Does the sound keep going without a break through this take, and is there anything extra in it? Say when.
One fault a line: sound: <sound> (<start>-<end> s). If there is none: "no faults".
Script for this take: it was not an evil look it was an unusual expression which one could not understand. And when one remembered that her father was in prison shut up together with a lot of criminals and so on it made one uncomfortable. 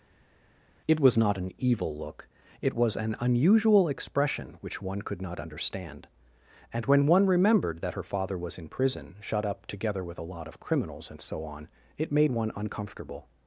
no faults